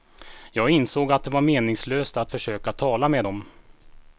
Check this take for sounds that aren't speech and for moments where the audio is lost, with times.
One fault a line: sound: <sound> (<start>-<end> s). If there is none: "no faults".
no faults